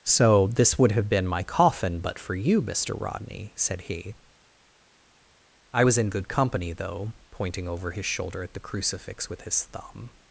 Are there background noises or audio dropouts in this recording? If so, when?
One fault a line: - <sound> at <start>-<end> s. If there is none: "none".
none